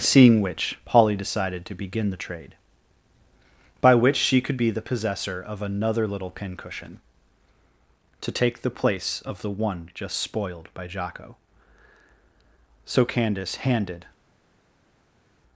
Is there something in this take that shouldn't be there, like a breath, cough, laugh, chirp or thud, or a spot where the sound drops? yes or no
no